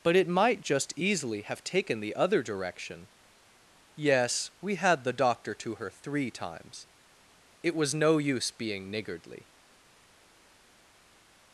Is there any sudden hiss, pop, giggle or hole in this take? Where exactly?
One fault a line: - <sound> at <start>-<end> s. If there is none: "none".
none